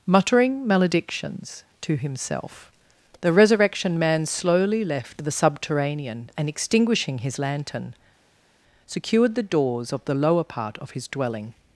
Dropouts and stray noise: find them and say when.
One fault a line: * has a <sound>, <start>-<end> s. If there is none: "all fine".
all fine